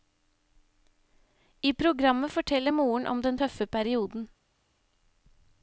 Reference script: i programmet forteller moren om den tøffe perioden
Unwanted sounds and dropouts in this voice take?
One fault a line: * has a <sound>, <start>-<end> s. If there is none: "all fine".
all fine